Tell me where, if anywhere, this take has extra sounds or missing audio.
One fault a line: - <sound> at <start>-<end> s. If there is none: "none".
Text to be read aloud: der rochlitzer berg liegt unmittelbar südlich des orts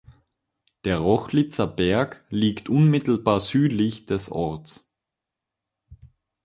none